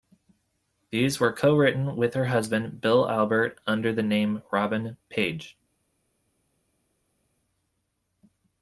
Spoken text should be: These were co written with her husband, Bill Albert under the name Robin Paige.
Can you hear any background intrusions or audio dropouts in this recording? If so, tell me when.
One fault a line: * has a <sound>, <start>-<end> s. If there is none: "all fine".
all fine